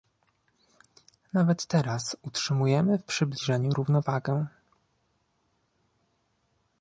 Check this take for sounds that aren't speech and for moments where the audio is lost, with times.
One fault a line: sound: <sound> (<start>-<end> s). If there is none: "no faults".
no faults